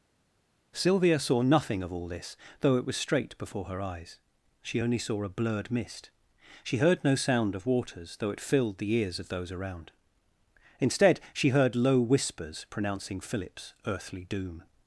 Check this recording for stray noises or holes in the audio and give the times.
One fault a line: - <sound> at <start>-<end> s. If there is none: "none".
none